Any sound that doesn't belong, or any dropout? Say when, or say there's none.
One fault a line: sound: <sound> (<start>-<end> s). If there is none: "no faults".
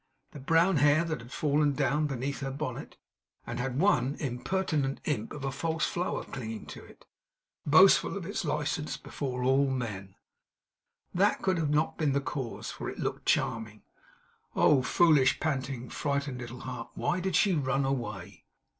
no faults